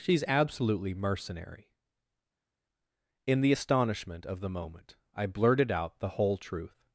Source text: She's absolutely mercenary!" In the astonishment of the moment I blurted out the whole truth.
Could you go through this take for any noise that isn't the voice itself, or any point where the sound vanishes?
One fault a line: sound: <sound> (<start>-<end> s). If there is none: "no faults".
no faults